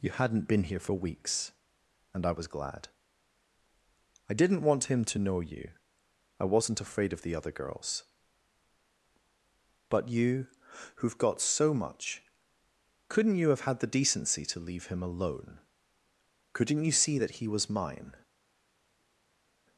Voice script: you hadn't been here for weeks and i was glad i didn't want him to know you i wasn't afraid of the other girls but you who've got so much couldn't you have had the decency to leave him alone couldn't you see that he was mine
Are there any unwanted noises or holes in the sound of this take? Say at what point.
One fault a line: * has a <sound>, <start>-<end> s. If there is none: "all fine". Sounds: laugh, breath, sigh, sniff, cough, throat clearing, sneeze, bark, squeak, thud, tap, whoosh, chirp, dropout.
all fine